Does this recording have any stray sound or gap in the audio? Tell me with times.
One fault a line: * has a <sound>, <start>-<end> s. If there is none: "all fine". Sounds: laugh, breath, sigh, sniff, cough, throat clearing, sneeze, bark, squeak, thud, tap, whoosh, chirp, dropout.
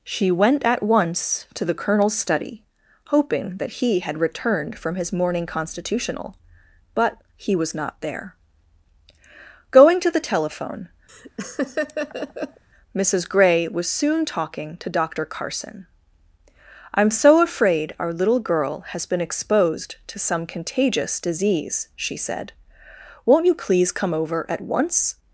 * has a laugh, 11.1-12.6 s